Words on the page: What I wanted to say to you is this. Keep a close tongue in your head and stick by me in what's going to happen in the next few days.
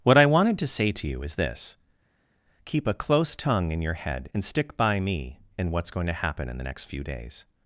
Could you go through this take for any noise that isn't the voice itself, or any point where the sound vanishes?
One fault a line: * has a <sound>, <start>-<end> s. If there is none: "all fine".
all fine